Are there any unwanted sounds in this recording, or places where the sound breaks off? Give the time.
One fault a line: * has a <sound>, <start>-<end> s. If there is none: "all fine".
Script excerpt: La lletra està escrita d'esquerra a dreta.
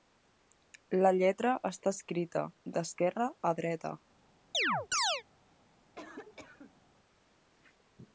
* has a chirp, 4.5-5.2 s
* has a cough, 6.0-6.8 s